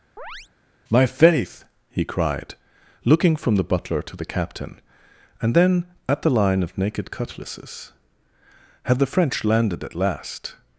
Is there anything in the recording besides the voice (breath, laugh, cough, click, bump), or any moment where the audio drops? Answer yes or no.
yes